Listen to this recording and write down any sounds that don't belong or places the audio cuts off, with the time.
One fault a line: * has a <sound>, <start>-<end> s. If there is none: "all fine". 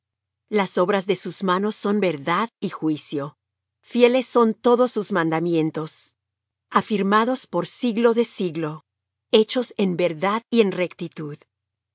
all fine